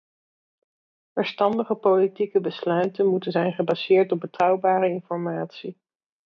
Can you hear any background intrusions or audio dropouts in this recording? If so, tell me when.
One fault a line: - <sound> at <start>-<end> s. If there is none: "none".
none